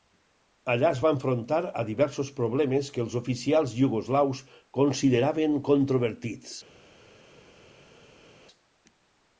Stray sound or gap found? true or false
false